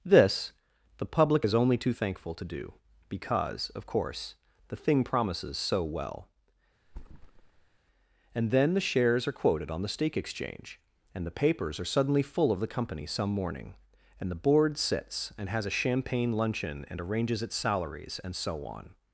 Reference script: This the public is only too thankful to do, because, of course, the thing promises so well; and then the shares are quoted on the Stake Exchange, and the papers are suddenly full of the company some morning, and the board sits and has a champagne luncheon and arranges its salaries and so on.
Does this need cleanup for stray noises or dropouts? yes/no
yes